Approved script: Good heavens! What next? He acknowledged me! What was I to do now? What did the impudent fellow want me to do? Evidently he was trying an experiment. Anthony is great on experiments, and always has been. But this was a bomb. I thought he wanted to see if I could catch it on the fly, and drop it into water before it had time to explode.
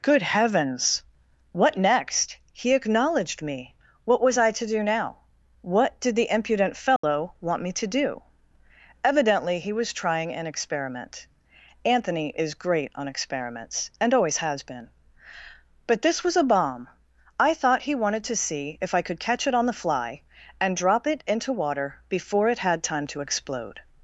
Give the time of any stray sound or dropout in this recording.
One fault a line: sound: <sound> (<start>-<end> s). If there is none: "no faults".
sound: dropout (7.0-7.0 s)